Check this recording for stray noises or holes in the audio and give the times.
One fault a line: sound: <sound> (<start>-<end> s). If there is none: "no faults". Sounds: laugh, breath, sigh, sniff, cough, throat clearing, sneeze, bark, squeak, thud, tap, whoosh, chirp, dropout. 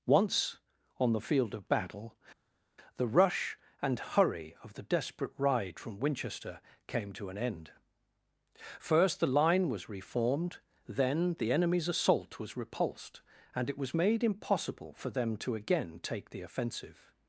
no faults